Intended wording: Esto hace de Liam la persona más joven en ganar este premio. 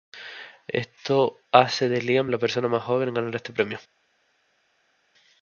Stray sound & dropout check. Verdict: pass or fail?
pass